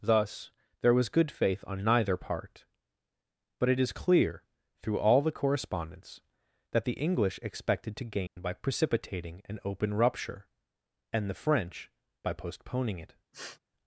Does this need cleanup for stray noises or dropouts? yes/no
yes